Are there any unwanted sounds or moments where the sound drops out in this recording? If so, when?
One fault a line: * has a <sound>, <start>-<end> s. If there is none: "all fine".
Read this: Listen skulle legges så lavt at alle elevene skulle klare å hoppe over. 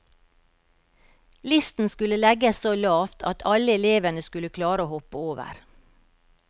all fine